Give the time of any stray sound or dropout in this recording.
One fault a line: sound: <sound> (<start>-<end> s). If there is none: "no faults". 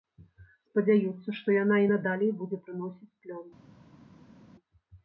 no faults